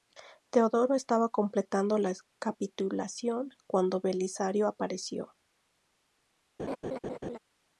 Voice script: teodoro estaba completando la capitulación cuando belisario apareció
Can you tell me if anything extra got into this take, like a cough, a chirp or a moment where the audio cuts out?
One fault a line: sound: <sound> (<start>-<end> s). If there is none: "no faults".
sound: laugh (6.6-7.4 s)